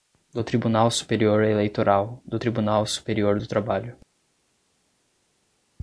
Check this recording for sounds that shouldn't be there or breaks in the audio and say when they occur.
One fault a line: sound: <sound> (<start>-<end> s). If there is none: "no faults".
no faults